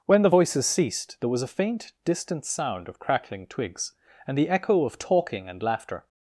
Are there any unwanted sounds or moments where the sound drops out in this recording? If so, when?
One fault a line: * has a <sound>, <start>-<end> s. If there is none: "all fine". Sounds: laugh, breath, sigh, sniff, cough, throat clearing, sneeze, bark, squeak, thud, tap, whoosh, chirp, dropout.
all fine